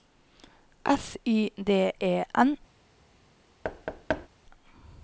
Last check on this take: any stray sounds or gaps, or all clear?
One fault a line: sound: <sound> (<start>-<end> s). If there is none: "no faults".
sound: thud (3.6-4.3 s)